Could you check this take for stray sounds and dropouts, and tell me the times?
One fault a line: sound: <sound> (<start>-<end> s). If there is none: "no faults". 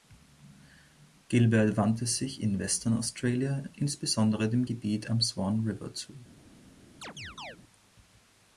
sound: chirp (7.0-7.6 s)